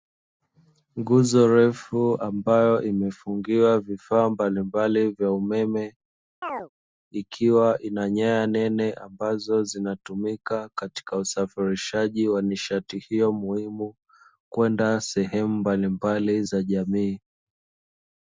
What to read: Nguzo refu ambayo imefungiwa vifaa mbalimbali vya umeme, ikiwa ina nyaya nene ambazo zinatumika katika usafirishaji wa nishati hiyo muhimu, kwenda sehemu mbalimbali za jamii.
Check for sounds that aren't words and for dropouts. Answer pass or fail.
fail